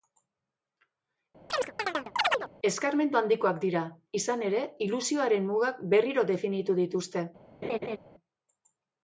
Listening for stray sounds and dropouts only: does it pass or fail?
fail